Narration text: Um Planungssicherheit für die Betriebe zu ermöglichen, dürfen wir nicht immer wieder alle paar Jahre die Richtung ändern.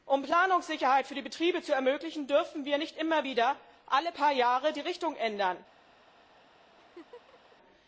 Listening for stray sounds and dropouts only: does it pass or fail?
fail